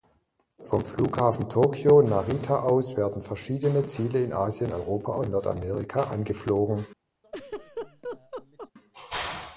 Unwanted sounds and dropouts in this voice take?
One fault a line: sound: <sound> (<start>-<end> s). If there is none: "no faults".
sound: laugh (7.2-8.7 s)